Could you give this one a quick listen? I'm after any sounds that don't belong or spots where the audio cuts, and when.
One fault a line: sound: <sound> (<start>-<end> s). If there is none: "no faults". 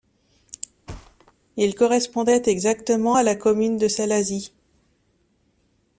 sound: thud (0.9-1.3 s)